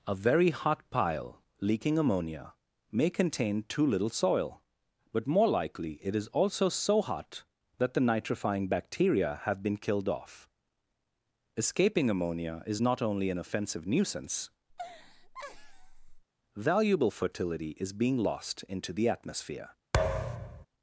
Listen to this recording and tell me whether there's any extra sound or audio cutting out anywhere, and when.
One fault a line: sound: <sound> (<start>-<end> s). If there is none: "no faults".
sound: laugh (14.7-16.2 s)
sound: thud (19.9-20.7 s)